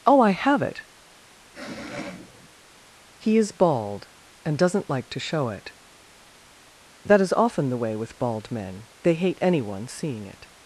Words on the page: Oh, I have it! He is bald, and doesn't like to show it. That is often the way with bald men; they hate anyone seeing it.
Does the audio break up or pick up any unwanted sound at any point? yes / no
yes